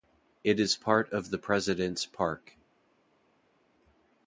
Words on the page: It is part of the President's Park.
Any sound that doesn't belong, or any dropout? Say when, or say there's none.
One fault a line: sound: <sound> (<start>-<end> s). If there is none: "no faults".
no faults